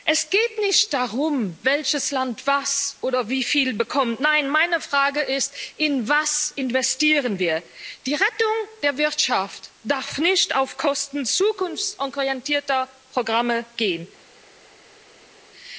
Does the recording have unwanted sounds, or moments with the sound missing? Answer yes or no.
no